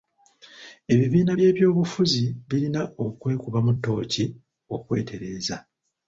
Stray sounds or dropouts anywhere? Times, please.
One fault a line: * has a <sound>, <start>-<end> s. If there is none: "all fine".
all fine